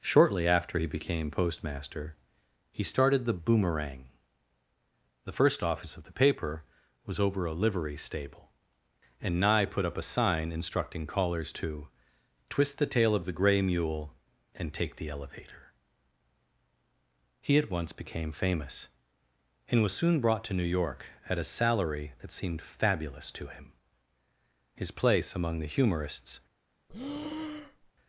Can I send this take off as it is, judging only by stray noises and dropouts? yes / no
no